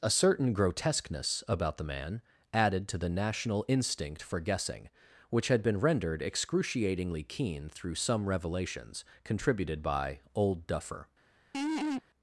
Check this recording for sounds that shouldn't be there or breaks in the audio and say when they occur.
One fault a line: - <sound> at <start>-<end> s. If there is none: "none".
- laugh at 11.5-12.0 s